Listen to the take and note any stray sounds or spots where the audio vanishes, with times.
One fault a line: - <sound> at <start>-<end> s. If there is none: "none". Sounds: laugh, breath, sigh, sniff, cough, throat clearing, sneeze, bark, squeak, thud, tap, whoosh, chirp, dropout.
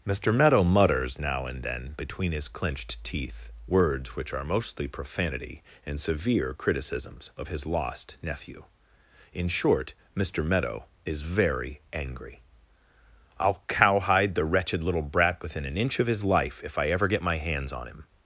none